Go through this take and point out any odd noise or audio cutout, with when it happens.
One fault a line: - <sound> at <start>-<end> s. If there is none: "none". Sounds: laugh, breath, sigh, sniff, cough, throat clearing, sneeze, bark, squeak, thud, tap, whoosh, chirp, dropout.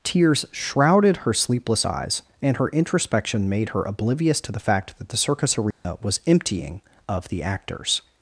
- dropout at 5.7-5.8 s